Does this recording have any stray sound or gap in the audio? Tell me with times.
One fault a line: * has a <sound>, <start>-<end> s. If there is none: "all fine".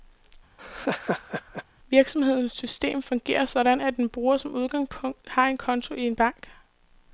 * has a laugh, 0.6-1.6 s